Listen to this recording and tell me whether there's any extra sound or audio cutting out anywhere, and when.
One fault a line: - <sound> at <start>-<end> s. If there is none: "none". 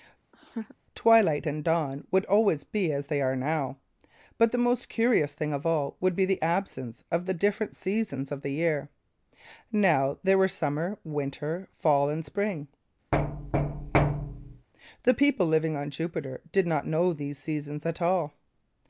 - laugh at 0.3-0.8 s
- thud at 13.1-14.7 s